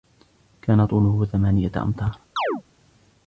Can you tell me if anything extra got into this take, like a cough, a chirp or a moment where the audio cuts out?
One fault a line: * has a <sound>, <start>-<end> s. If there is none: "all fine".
* has a chirp, 2.4-2.6 s